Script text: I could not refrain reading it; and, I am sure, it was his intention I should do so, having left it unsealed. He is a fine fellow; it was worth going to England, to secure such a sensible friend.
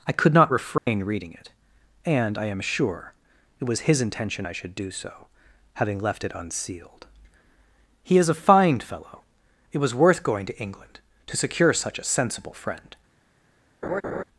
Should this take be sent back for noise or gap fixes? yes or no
yes